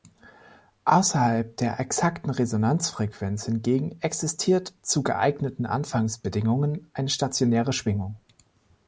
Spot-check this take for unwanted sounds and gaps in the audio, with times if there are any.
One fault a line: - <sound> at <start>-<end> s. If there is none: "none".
none